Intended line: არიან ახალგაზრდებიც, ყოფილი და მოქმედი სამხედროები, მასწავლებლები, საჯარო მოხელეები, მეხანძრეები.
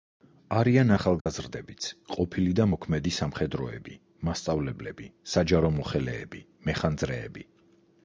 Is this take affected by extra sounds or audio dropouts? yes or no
yes